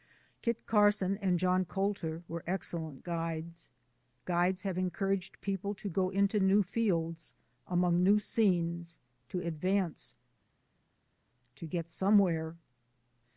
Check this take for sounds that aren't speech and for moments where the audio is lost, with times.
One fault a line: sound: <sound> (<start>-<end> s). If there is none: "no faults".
no faults